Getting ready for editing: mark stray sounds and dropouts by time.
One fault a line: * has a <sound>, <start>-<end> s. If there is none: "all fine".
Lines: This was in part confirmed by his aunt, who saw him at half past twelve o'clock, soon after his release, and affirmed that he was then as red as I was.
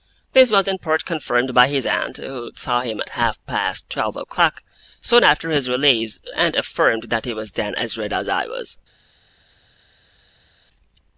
all fine